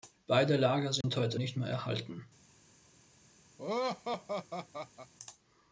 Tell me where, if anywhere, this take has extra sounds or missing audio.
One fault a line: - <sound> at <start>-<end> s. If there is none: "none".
- dropout at 1.0-1.0 s
- laugh at 3.6-5.1 s